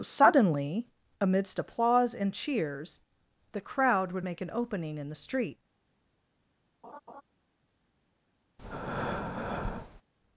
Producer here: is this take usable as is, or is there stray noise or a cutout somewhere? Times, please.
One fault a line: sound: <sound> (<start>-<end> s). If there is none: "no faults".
sound: laugh (6.8-7.2 s)
sound: breath (8.6-10.0 s)